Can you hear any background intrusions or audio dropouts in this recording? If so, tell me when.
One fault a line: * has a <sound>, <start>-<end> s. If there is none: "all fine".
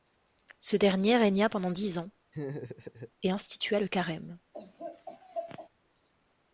* has a laugh, 2.3-3.1 s
* has a laugh, 4.5-5.7 s